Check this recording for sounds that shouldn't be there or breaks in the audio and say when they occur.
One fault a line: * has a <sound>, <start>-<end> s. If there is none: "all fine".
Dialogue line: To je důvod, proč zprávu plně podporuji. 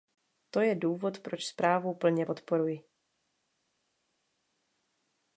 all fine